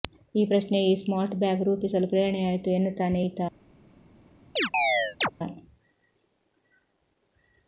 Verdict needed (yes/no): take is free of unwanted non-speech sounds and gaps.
no